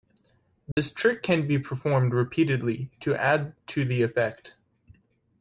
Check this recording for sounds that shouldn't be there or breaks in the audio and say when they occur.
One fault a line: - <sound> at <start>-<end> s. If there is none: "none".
- dropout at 0.7-0.8 s